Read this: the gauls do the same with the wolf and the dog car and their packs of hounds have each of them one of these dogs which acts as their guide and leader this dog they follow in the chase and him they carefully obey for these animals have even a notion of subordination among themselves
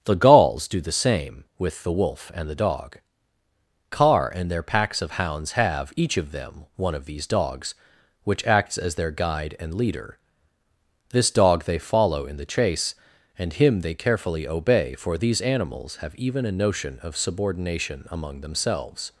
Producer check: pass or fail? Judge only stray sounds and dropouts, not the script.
pass